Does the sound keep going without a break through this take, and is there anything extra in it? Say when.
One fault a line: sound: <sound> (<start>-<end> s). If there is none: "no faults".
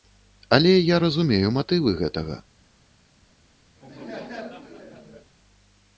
sound: laugh (3.8-5.3 s)